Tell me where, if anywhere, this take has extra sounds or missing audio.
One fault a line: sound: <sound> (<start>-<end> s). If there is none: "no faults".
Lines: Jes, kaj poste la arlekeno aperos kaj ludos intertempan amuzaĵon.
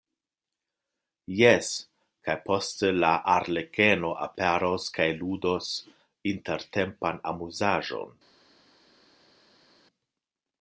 no faults